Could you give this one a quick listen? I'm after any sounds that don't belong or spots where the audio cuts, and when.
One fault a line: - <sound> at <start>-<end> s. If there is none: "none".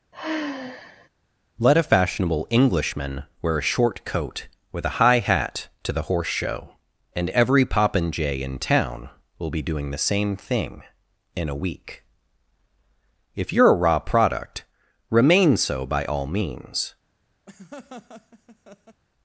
- sigh at 0.1-1.1 s
- laugh at 17.5-19.0 s